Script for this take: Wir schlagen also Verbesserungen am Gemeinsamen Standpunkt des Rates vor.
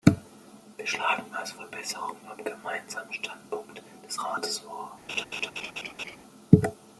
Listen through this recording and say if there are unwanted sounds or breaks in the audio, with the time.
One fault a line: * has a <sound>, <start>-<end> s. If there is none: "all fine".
* has a laugh, 5.1-6.2 s